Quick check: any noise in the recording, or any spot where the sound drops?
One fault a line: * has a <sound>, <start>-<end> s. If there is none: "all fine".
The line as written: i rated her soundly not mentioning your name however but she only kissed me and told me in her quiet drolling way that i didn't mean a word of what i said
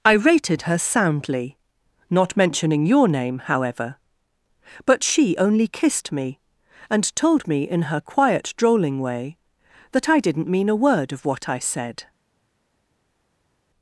all fine